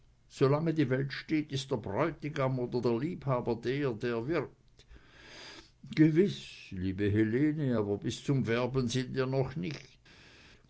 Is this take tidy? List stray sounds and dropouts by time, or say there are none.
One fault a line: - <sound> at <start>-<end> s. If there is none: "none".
none